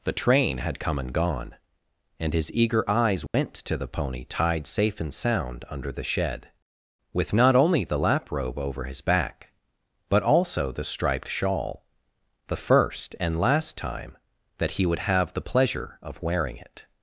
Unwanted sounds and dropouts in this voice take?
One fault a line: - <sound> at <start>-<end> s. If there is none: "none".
- dropout at 3.3-3.3 s